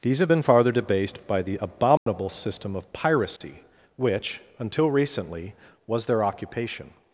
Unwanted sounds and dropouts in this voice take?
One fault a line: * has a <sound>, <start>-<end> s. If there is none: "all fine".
* has a dropout, 2.0-2.1 s
* has a dropout, 3.4-3.4 s